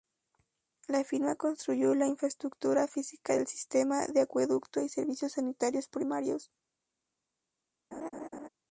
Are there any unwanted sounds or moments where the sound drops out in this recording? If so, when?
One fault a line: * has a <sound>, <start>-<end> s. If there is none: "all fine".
* has a laugh, 7.9-8.5 s